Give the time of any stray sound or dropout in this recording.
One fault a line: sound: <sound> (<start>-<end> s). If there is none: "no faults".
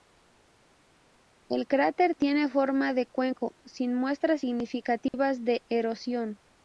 sound: dropout (5.1-5.1 s)